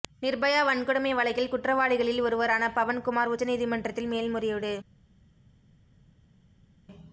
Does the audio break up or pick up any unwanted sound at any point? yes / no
no